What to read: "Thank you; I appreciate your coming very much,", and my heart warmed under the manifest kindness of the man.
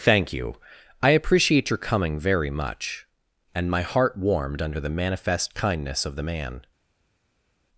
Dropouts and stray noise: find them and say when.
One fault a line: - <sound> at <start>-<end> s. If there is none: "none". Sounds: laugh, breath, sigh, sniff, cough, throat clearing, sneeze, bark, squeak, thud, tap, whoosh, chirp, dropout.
none